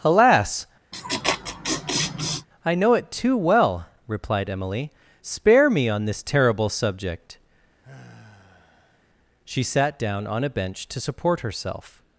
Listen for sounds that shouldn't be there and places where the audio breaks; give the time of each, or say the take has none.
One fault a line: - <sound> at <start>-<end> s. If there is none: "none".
- laugh at 0.9-2.5 s
- sigh at 7.8-9.0 s